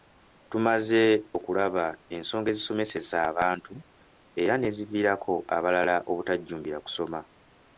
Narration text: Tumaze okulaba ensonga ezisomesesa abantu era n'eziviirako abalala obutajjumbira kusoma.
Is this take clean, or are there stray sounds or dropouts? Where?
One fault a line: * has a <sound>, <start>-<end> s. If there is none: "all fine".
all fine